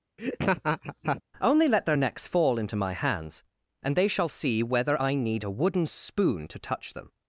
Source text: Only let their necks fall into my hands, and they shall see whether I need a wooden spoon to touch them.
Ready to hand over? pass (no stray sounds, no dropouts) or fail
fail